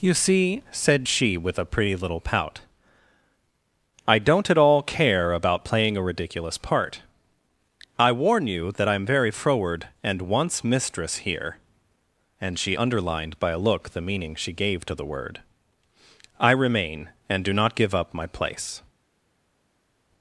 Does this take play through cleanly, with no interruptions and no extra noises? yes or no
yes